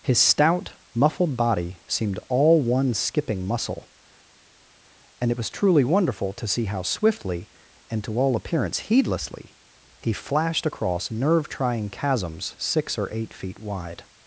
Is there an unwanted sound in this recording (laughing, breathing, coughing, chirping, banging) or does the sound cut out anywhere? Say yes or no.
no